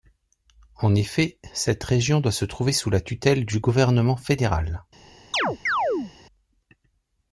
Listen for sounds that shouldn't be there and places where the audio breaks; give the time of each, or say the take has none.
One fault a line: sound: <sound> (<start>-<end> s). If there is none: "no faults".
sound: chirp (5.3-6.1 s)